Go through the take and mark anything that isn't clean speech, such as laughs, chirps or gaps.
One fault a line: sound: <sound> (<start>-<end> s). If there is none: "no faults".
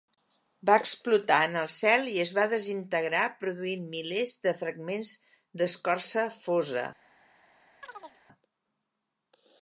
sound: chirp (7.8-8.2 s)